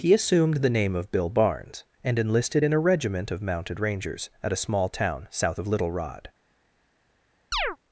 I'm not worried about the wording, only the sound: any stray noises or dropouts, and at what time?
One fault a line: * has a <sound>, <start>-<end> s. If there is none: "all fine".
* has a chirp, 7.5-7.8 s